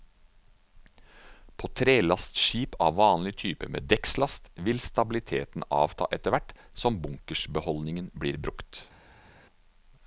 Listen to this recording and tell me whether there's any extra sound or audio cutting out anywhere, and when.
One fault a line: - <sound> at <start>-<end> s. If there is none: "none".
none